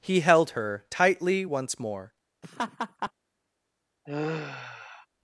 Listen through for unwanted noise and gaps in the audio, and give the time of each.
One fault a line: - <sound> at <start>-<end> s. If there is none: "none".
- laugh at 2.4-3.1 s
- sigh at 4.1-5.1 s